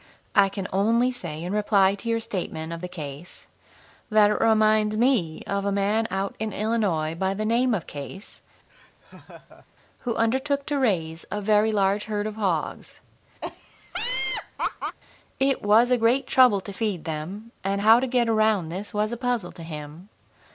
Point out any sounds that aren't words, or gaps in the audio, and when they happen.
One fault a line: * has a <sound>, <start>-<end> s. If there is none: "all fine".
* has a laugh, 8.7-9.7 s
* has a laugh, 13.4-15.0 s